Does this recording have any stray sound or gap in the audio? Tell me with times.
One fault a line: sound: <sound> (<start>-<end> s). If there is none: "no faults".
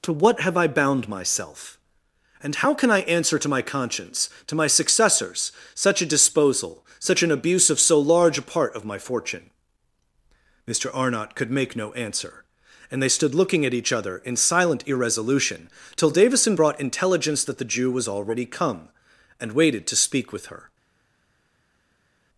no faults